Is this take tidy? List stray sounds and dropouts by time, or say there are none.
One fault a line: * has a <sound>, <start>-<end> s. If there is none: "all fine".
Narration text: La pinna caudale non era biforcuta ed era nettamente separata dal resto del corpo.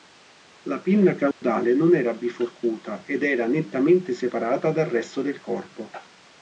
* has a dropout, 1.3-1.4 s